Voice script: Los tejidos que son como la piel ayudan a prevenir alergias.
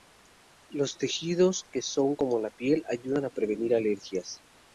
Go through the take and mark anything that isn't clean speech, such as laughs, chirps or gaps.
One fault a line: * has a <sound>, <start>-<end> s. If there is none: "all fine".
all fine